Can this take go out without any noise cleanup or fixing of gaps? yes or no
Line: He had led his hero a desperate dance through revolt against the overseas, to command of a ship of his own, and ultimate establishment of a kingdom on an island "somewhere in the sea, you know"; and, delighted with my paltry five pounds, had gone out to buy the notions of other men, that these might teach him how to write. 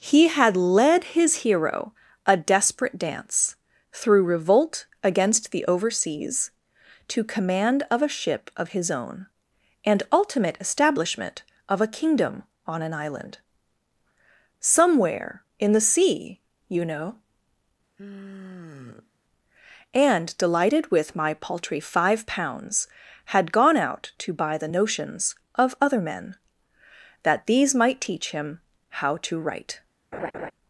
no